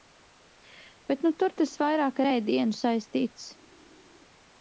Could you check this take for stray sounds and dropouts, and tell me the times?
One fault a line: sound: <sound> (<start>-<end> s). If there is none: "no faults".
no faults